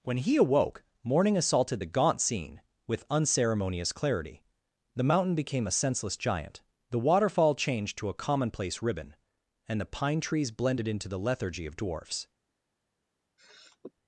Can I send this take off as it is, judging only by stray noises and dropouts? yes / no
no